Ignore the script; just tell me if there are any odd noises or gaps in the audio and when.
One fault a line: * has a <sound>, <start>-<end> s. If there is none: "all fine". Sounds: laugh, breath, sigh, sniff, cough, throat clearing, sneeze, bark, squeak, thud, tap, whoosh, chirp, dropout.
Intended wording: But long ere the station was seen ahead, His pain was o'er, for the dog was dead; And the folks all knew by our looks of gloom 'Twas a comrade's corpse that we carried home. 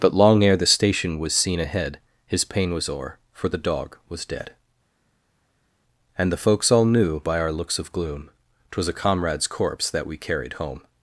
all fine